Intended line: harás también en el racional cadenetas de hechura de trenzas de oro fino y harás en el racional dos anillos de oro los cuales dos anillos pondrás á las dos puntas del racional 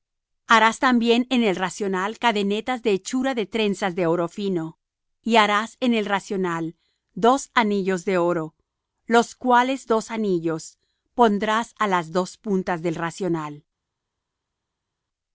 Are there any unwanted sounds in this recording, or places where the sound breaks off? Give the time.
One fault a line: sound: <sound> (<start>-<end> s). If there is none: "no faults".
no faults